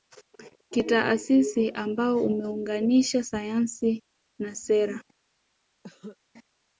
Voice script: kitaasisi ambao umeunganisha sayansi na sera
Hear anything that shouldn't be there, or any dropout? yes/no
yes